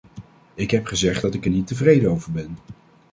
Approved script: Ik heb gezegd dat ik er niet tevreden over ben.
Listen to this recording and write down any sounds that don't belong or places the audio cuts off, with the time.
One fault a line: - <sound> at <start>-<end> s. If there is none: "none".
none